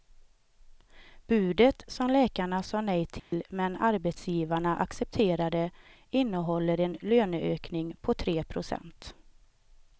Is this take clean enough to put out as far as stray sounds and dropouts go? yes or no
no